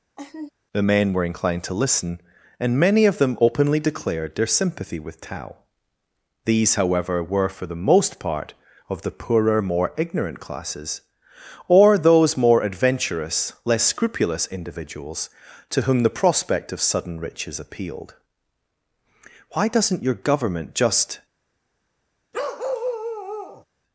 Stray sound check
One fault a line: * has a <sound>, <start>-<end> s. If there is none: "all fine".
* has a laugh, 0.2-0.5 s
* has a bark, 22.3-23.6 s